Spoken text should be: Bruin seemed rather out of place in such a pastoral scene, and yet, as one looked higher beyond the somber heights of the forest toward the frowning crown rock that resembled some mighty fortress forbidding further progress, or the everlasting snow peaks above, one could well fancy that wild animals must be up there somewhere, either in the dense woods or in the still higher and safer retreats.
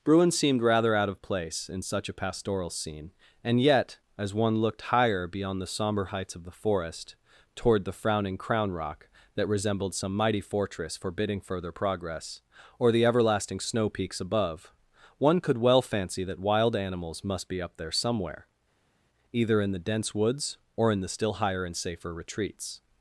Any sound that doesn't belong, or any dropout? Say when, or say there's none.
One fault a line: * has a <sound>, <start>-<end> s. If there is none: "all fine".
all fine